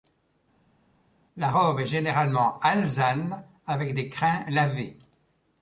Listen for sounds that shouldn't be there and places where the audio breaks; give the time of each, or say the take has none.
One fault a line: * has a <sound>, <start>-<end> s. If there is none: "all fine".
all fine